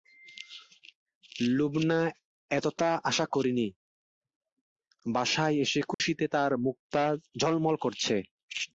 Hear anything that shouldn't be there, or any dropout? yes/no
yes